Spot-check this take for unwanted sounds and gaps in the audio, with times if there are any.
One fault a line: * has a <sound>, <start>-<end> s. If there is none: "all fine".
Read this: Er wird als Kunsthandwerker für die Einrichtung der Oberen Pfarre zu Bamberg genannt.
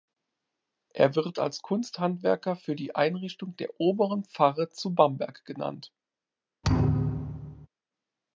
* has a thud, 6.6-7.7 s